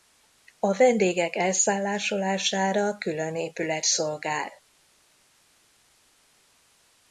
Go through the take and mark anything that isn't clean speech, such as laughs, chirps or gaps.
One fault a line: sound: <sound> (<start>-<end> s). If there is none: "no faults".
no faults